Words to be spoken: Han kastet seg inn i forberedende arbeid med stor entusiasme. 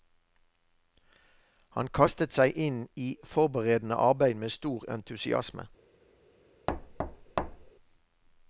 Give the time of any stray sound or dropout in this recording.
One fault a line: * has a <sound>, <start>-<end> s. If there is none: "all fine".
* has a thud, 6.7-7.7 s